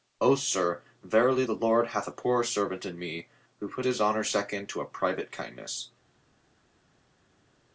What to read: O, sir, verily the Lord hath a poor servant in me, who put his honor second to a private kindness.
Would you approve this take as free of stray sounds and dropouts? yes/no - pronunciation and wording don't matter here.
yes